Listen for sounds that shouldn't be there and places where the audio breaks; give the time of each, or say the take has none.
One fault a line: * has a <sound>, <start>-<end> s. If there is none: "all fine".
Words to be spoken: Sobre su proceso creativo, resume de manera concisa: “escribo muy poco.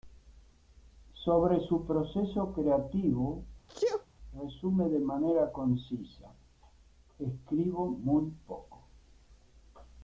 * has a sneeze, 3.7-4.1 s